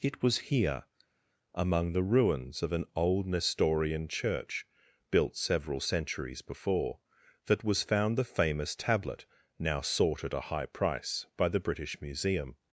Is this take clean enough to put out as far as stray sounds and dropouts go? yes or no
yes